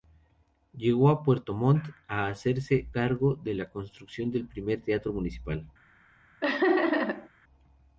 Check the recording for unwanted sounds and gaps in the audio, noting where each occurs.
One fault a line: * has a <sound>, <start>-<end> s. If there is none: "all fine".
* has a laugh, 6.4-7.3 s